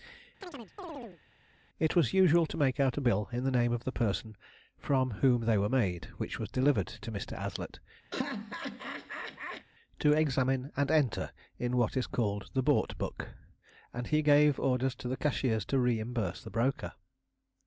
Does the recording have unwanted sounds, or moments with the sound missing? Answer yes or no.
yes